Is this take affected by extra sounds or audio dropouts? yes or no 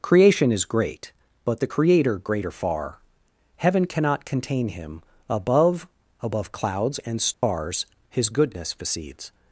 yes